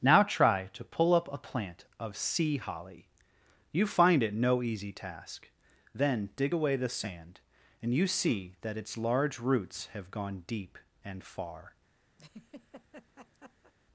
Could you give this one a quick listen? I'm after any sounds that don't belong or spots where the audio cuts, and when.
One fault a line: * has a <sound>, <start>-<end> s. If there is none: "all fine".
* has a laugh, 12.2-13.7 s